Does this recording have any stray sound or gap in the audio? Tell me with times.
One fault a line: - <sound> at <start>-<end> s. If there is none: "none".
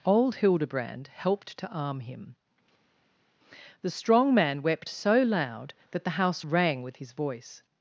none